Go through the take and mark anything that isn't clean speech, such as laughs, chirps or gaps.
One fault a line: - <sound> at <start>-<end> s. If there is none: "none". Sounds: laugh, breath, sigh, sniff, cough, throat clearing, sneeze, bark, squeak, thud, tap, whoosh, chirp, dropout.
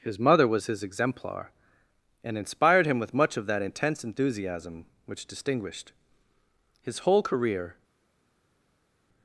none